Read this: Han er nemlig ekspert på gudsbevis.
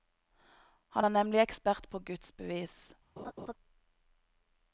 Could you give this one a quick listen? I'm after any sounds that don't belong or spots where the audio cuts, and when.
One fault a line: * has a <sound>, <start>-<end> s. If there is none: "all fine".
* has a laugh, 3.2-3.5 s